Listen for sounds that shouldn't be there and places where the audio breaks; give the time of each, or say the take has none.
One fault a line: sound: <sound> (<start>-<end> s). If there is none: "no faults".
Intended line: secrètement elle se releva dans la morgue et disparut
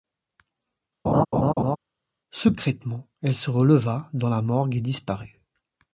sound: laugh (1.0-1.8 s)